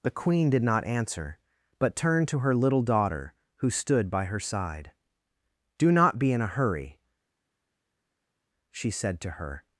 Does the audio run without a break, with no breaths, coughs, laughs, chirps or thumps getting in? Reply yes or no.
yes